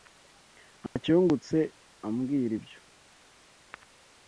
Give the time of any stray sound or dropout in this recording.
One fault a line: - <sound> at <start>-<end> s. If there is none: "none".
- dropout at 0.9-1.0 s